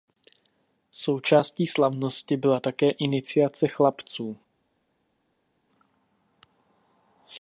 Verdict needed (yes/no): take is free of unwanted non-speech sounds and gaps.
yes